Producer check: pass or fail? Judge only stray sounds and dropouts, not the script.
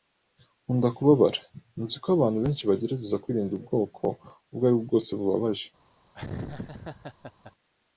fail